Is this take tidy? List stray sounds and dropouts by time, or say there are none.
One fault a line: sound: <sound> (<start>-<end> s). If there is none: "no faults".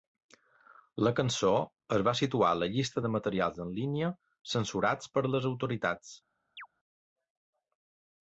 sound: chirp (6.6-6.7 s)